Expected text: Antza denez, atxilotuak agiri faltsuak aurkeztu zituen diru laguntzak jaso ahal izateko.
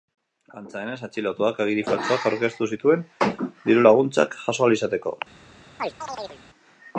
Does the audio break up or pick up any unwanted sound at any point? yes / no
yes